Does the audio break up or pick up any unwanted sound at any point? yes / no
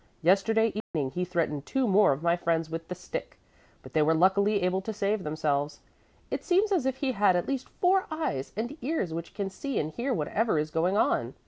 yes